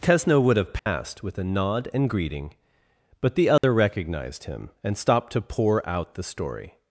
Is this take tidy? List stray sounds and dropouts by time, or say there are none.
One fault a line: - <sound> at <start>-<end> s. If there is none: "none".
- dropout at 0.8-0.9 s
- dropout at 3.6-3.6 s